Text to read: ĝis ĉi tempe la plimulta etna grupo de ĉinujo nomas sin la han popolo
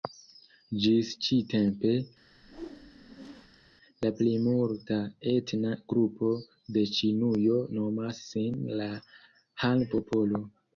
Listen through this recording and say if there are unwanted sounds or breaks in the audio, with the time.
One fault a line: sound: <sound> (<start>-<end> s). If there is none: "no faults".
sound: whoosh (2.3-3.7 s)